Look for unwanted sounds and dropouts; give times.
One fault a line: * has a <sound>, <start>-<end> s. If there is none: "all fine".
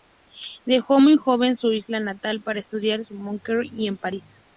all fine